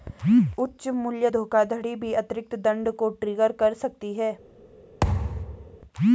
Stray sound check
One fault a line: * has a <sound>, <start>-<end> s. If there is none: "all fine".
* has a thud, 5.0-5.8 s